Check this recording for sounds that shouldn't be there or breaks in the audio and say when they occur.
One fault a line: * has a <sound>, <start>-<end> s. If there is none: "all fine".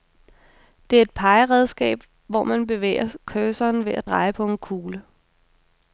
all fine